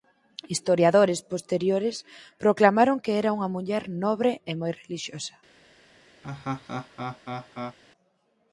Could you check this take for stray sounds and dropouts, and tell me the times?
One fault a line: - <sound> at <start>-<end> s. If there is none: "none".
- laugh at 6.2-7.8 s